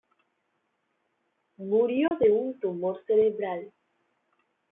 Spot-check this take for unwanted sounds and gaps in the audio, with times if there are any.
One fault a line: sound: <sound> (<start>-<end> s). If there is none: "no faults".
sound: dropout (2.1-2.1 s)